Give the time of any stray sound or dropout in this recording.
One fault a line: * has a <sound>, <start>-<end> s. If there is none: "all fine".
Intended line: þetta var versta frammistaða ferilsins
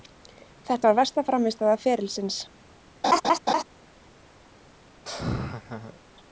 * has a laugh, 3.0-3.6 s
* has a laugh, 5.0-6.0 s